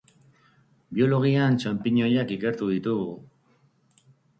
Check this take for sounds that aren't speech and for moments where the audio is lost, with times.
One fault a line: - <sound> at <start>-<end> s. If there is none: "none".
none